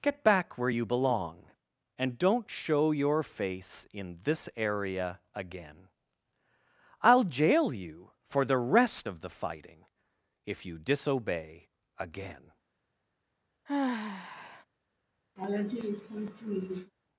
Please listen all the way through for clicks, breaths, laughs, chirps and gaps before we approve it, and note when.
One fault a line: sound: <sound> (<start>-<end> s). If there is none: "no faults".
sound: sigh (13.7-14.7 s)
sound: laugh (15.4-16.9 s)